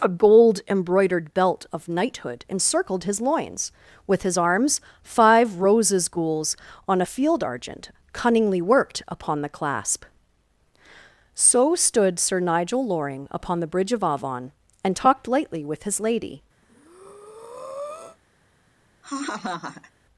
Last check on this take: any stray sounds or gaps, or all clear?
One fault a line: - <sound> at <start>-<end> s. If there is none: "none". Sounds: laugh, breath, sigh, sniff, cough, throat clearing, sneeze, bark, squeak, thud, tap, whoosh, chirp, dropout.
- breath at 16.6-18.2 s
- laugh at 19.0-19.9 s